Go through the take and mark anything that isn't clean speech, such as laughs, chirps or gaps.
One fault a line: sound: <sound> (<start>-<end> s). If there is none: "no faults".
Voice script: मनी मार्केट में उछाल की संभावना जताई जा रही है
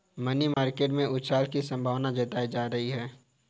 sound: dropout (0.5-0.6 s)